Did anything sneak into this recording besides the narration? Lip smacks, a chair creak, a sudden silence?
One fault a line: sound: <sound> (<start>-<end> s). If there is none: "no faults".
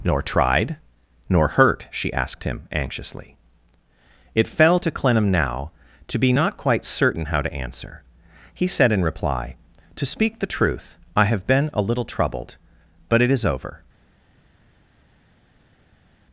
no faults